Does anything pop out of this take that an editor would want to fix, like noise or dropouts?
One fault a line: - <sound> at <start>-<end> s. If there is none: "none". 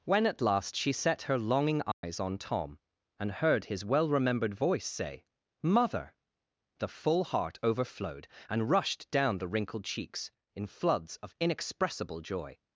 - dropout at 1.9-2.0 s